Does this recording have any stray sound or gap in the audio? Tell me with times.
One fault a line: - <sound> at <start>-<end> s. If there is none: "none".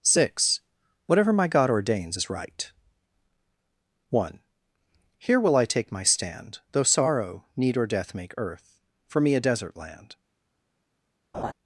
- laugh at 11.3-11.5 s